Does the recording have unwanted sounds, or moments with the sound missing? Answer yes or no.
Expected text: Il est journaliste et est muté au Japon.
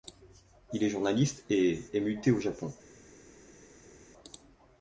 no